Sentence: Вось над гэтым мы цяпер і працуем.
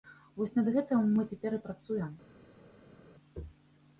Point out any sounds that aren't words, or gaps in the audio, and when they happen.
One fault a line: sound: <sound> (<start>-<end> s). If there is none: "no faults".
no faults